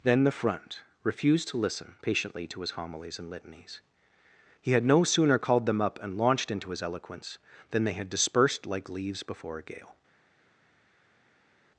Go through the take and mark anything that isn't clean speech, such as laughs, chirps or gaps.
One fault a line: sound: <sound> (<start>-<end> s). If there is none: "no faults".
no faults